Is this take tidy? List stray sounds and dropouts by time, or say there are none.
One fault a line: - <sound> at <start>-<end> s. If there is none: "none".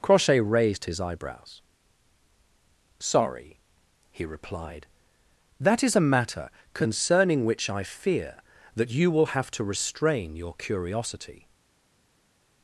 none